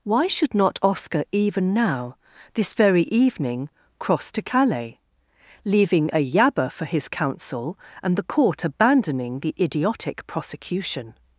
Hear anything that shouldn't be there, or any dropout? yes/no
no